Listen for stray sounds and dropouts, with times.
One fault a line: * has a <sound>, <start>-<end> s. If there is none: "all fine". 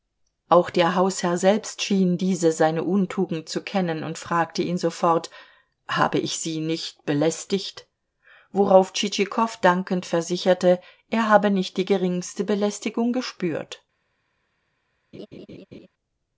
* has a laugh, 15.1-15.9 s